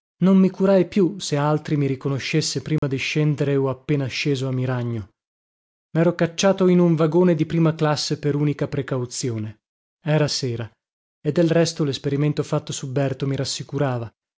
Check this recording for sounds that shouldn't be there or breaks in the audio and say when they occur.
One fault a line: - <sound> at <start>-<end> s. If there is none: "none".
- dropout at 2.8-2.8 s